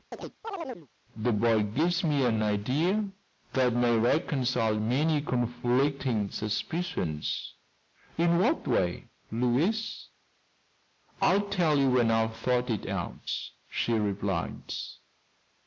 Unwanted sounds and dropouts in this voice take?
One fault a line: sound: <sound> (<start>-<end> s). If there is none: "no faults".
sound: chirp (0.1-0.9 s)